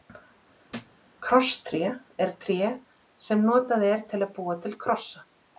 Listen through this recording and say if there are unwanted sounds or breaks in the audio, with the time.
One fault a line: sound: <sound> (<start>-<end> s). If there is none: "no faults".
sound: thud (0.7-1.0 s)